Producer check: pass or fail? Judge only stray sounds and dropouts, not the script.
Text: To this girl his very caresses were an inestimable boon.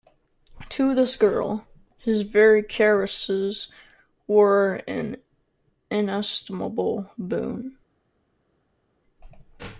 pass